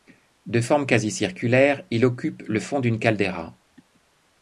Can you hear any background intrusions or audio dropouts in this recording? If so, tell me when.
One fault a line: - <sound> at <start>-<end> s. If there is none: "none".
none